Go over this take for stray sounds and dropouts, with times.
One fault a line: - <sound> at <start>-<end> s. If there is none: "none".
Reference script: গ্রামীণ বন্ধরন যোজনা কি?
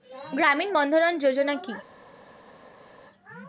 none